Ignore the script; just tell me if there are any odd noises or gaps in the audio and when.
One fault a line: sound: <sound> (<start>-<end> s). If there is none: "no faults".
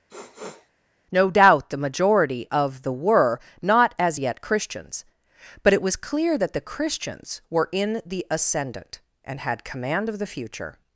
sound: sniff (0.1-0.7 s)